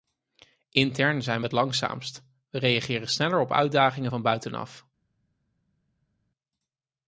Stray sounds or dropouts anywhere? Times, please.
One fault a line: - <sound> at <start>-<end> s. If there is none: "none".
none